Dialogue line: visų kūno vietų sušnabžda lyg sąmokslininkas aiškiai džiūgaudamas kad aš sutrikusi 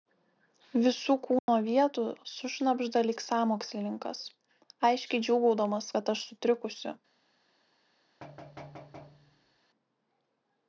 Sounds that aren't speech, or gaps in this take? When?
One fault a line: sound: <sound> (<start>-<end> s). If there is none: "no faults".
sound: dropout (1.4-1.5 s)
sound: thud (8.2-9.6 s)